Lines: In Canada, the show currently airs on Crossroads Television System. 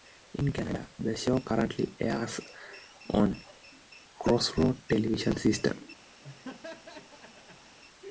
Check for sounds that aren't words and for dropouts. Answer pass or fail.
fail